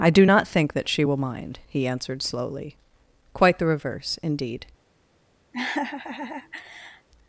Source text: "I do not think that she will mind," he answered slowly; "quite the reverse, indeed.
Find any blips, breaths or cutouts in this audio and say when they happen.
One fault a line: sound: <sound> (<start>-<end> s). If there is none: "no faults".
sound: laugh (5.5-7.1 s)